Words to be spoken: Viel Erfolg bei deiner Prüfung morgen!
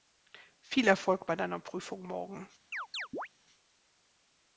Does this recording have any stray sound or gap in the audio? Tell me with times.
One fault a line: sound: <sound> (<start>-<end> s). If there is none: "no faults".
sound: chirp (2.7-3.3 s)